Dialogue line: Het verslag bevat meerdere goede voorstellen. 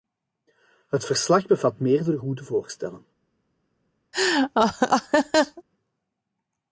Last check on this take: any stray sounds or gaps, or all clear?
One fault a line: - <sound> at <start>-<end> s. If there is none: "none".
- laugh at 4.1-5.6 s